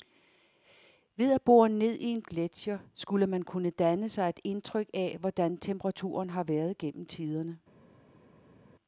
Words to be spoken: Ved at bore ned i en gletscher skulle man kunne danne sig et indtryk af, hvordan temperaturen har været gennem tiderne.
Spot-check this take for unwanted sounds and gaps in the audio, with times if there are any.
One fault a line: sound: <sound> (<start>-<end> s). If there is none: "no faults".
no faults